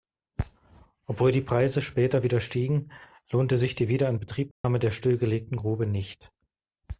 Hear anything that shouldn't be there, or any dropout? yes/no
yes